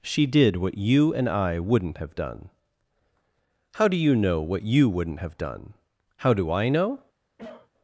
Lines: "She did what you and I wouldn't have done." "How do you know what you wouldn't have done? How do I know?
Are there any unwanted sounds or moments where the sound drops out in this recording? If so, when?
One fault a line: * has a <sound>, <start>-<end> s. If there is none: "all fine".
* has a cough, 7.4-7.7 s